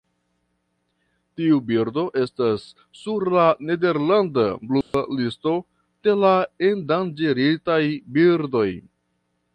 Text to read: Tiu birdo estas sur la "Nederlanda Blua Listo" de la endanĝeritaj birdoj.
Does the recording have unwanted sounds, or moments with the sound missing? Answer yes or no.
yes